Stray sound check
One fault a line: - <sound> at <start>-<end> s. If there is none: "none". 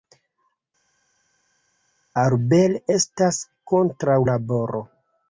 none